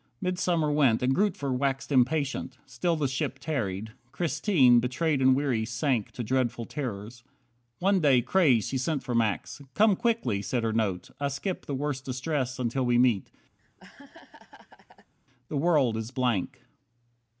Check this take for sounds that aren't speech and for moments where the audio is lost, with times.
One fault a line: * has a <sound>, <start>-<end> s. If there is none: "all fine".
* has a laugh, 13.6-15.1 s